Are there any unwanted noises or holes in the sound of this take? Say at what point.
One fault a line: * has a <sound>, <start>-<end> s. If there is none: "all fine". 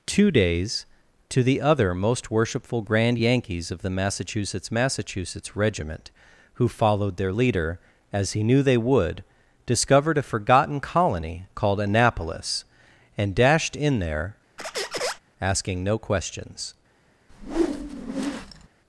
* has a squeak, 14.6-15.2 s
* has a whoosh, 17.3-18.7 s